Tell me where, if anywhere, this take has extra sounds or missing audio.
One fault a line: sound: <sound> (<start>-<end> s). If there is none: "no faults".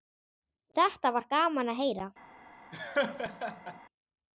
sound: laugh (2.7-3.8 s)